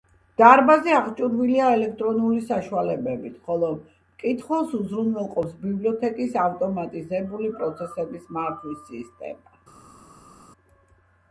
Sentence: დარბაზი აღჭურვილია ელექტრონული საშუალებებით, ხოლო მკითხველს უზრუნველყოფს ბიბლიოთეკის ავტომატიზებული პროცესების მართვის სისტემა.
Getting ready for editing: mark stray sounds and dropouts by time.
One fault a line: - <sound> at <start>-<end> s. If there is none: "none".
none